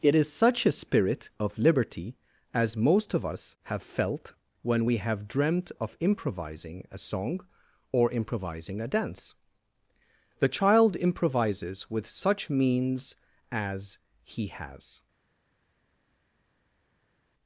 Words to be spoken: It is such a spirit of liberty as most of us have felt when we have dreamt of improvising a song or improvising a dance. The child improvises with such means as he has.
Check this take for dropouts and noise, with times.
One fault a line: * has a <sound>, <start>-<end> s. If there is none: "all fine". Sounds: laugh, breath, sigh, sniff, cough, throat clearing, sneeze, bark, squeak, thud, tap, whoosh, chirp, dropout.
all fine